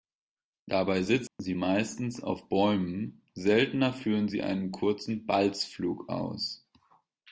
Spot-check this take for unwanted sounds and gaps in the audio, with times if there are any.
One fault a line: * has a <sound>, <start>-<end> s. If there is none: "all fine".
* has a dropout, 1.3-1.4 s